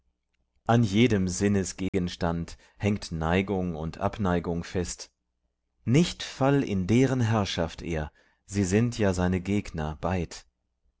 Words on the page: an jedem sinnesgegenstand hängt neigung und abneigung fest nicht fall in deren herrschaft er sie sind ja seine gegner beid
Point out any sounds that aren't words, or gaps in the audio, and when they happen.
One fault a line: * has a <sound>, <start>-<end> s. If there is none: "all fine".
* has a dropout, 1.9-1.9 s